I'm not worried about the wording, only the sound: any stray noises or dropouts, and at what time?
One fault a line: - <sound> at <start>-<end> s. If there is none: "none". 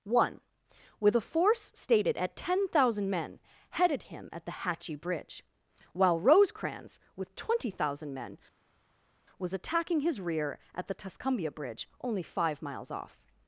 none